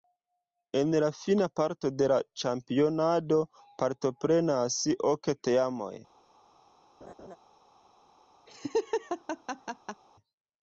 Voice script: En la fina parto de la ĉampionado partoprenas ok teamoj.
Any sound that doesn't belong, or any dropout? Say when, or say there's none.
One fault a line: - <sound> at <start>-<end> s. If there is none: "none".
- laugh at 7.0-7.4 s
- laugh at 8.5-10.0 s